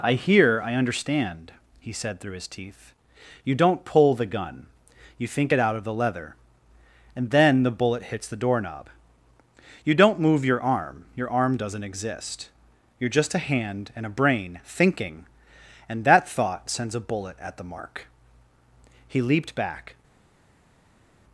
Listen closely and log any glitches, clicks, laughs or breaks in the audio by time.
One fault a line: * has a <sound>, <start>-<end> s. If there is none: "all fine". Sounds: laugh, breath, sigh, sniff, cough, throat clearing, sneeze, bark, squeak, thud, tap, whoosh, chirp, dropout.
all fine